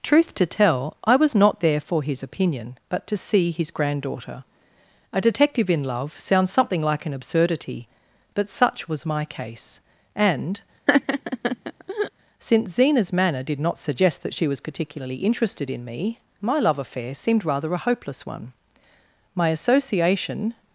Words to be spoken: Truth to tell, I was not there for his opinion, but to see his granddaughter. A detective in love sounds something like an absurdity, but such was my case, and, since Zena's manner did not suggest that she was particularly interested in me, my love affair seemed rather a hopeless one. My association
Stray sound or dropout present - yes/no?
yes